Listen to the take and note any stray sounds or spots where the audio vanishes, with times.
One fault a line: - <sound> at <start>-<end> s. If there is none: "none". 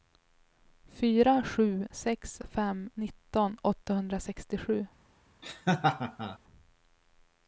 - laugh at 5.4-6.4 s